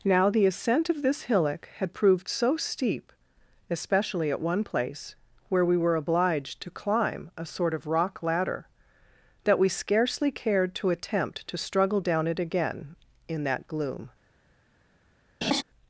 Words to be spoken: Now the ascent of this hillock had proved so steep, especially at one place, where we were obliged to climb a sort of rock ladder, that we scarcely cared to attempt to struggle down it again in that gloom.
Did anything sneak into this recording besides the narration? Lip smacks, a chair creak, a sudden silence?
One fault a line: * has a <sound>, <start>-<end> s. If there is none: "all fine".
* has a laugh, 15.4-15.6 s